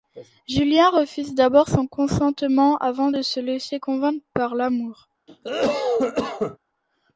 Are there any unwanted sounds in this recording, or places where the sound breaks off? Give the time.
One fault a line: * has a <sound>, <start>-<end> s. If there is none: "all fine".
* has a cough, 5.3-6.6 s